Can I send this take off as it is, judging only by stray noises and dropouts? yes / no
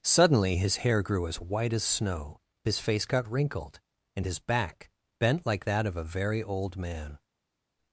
yes